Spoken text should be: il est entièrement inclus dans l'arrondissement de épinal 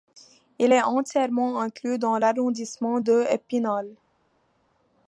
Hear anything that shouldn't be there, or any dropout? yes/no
no